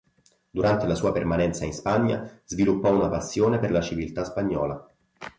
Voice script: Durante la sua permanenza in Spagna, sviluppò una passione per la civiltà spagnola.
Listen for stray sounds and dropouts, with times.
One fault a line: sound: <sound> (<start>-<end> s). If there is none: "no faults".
no faults